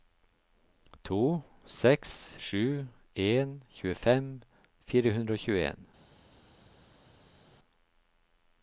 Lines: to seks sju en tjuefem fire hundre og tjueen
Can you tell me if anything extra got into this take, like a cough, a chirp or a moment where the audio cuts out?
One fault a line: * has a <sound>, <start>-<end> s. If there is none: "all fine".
all fine